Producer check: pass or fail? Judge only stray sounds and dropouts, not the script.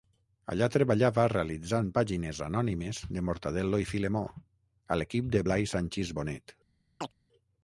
fail